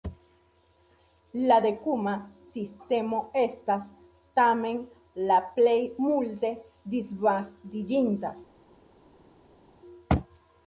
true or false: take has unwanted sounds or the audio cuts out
false